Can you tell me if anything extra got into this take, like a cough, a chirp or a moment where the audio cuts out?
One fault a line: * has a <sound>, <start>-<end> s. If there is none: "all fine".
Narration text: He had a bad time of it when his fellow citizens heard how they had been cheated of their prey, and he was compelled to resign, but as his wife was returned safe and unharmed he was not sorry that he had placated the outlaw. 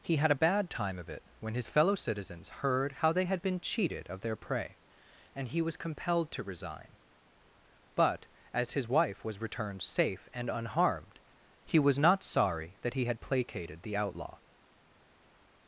all fine